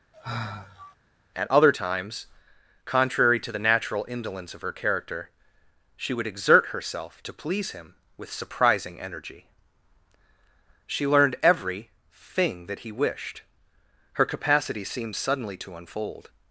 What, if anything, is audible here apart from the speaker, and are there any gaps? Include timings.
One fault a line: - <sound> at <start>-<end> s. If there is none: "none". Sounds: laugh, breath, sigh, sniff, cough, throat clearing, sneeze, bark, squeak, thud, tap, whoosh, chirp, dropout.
- sigh at 0.1-1.0 s